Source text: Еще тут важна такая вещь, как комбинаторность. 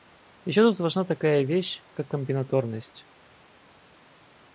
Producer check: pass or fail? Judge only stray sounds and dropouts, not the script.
pass